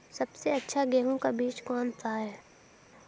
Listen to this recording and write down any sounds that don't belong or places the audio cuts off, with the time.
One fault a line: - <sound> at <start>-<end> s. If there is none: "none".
none